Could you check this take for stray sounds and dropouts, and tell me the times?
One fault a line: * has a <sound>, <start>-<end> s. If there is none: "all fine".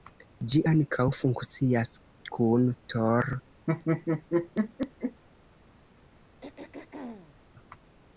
* has a laugh, 3.7-5.2 s
* has a throat clearing, 6.4-7.4 s